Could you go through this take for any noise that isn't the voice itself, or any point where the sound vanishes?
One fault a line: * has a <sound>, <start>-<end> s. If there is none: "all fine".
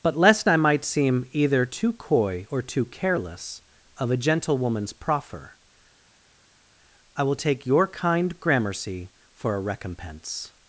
all fine